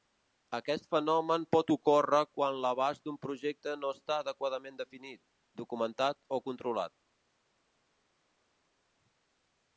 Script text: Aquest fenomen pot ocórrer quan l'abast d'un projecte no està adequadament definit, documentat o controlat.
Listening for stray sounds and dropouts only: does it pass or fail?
pass